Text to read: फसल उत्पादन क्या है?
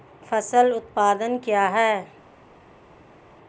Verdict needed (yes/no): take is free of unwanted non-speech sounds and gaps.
yes